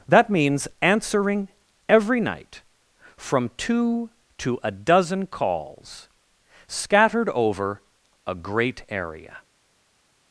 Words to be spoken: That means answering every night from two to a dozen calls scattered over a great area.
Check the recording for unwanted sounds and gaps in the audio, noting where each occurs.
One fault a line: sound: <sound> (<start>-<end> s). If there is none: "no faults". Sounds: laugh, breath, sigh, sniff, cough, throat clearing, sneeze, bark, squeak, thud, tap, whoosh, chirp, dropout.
no faults